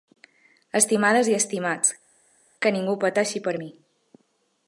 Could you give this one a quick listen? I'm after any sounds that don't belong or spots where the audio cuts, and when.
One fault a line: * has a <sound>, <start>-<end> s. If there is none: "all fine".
all fine